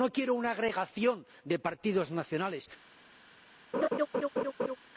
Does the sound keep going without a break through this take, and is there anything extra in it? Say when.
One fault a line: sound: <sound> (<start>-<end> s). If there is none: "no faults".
sound: laugh (3.7-4.8 s)